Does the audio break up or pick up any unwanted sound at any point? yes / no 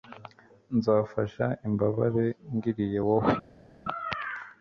no